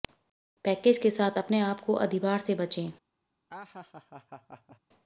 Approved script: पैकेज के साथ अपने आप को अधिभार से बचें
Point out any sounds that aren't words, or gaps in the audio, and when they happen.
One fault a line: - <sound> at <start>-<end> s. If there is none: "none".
- laugh at 3.5-4.8 s